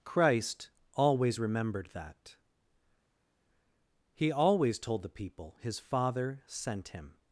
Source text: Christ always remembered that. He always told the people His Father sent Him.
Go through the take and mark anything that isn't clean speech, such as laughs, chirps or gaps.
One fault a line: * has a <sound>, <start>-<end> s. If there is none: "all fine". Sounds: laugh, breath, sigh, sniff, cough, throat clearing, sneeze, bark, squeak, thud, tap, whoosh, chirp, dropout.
all fine